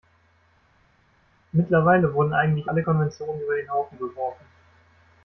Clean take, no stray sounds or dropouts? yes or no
yes